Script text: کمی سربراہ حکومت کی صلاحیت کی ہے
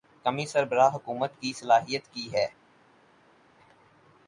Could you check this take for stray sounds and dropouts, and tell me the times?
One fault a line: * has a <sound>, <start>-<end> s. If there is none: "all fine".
all fine